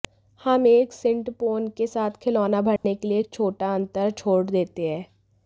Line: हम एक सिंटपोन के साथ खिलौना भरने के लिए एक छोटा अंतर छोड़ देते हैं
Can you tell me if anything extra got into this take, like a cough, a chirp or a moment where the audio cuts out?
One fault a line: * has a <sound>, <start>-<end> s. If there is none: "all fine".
* has a dropout, 2.8-2.8 s